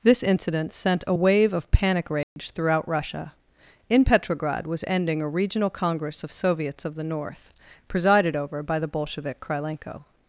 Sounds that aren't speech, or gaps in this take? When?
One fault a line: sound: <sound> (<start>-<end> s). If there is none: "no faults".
sound: dropout (2.2-2.4 s)